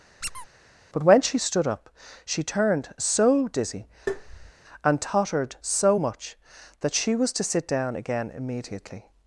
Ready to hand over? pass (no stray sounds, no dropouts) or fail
fail